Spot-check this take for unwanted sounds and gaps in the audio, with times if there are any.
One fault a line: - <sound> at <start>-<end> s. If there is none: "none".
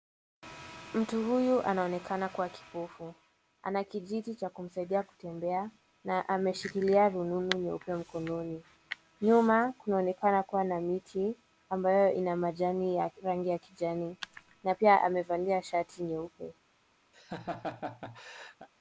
- laugh at 17.1-18.7 s